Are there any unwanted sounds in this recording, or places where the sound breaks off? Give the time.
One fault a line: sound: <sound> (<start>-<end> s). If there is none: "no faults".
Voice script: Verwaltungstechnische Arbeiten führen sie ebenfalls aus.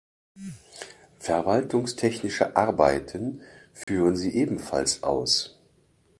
sound: dropout (3.8-3.9 s)